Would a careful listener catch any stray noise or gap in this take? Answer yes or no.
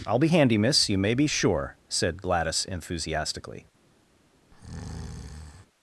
yes